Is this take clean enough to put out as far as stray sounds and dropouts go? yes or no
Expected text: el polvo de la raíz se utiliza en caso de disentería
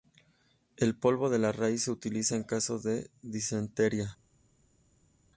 yes